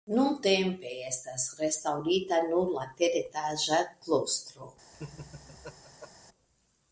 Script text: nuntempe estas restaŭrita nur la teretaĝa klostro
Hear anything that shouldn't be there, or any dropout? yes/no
yes